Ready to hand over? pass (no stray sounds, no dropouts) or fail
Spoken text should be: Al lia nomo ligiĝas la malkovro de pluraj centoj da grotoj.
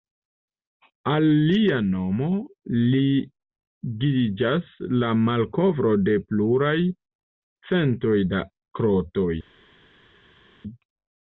pass